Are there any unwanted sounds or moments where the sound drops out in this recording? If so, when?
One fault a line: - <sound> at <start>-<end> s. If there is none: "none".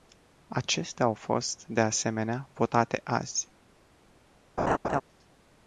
- laugh at 4.6-5.0 s